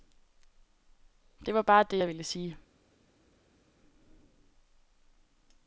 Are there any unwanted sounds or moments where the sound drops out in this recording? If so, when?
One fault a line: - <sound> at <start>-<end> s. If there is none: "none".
none